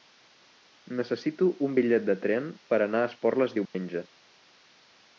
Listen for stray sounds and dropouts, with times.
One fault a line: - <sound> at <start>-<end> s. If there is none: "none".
- dropout at 3.7-3.7 s